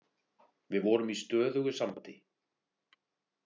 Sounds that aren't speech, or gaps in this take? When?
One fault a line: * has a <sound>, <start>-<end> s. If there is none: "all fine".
all fine